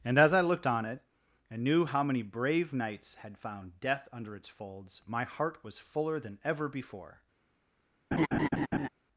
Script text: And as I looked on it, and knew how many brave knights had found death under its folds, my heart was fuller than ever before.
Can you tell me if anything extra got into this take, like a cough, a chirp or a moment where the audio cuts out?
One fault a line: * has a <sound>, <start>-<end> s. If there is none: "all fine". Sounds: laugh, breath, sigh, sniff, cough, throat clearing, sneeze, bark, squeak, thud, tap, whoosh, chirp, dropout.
* has a laugh, 8.1-8.9 s